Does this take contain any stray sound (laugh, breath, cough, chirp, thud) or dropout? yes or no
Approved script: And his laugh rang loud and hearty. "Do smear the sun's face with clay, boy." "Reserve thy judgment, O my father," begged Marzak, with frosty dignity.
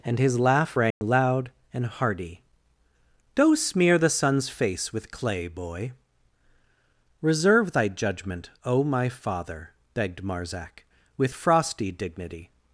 yes